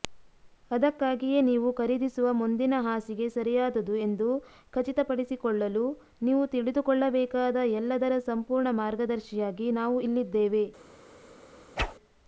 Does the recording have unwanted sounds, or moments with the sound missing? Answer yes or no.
yes